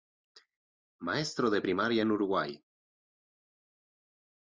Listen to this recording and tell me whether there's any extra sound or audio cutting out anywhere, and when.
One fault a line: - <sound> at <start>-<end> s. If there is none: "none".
none